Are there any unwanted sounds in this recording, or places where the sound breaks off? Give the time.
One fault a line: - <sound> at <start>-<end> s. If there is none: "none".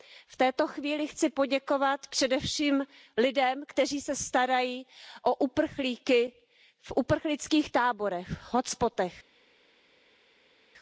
none